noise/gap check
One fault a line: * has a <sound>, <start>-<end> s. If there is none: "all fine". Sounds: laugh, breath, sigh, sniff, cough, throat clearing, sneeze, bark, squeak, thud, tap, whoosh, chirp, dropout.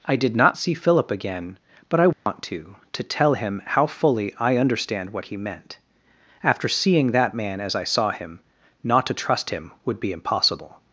* has a dropout, 2.1-2.3 s